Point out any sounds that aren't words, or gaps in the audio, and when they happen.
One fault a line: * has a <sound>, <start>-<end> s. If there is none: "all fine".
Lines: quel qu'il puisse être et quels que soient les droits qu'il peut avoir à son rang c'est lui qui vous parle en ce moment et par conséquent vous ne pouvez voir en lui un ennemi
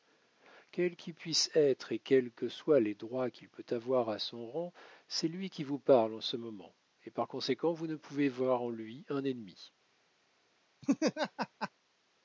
* has a laugh, 10.8-11.7 s